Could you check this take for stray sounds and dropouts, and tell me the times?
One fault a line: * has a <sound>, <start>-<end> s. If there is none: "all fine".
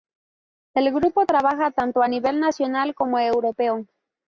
all fine